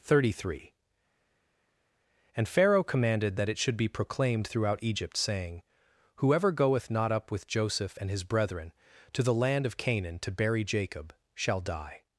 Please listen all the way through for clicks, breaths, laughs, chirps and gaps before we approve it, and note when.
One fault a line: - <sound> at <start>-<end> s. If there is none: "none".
none